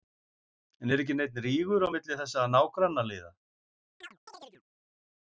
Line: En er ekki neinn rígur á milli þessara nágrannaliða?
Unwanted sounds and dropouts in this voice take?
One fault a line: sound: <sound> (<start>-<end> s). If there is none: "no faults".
sound: chirp (4.0-4.6 s)